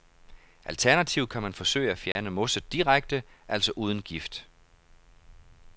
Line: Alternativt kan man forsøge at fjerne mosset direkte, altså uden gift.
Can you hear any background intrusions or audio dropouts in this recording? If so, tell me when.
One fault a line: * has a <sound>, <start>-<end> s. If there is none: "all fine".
* has a dropout, 2.1-2.2 s